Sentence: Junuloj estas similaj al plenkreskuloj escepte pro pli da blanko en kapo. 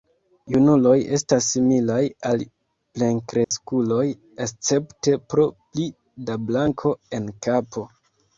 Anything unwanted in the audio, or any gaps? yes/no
yes